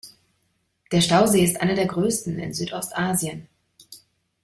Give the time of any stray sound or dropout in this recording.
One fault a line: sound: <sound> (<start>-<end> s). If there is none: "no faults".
no faults